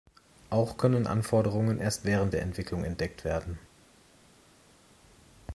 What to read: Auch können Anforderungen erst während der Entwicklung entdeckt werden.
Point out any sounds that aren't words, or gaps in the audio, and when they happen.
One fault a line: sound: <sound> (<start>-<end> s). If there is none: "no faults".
no faults